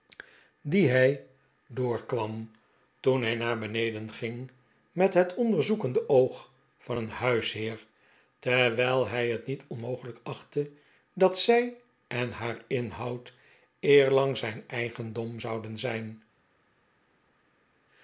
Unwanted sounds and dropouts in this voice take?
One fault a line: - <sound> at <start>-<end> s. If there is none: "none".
none